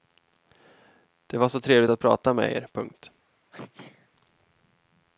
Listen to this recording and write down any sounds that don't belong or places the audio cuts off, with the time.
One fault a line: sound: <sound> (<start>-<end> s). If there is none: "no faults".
sound: sneeze (3.5-4.1 s)